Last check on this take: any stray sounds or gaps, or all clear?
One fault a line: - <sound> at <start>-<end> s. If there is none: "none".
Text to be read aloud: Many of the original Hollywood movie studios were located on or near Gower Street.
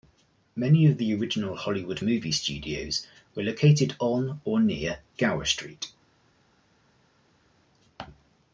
none